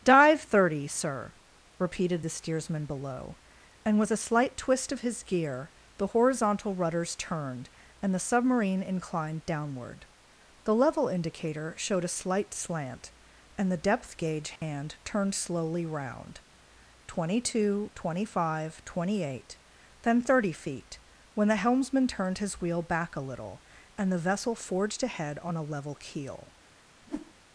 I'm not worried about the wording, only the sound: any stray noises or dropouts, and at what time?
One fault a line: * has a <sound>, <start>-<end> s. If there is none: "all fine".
* has a dropout, 14.6-14.6 s
* has a whoosh, 27.0-27.3 s